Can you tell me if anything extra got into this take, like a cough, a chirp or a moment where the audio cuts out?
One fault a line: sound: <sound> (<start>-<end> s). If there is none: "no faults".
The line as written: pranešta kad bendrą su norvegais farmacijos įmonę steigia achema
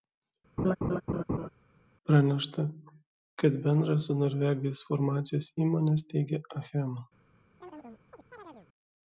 sound: laugh (0.6-1.5 s)
sound: chirp (7.6-8.7 s)